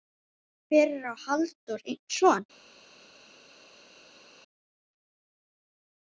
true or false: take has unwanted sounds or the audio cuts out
false